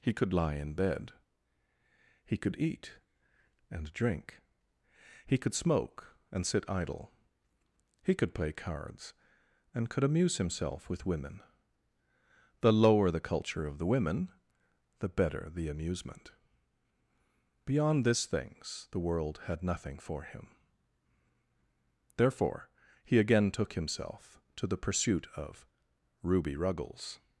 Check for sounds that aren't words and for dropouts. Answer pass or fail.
pass